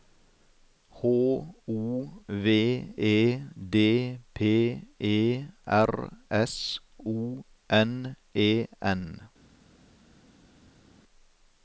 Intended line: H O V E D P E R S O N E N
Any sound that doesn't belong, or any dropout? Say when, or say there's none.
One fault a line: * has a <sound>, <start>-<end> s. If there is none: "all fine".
all fine